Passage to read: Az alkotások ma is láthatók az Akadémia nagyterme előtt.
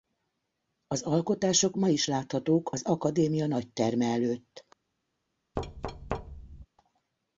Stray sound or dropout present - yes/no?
yes